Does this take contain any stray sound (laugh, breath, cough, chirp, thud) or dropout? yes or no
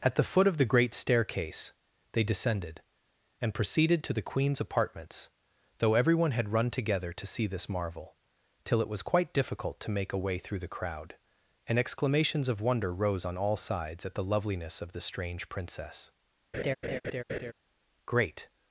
yes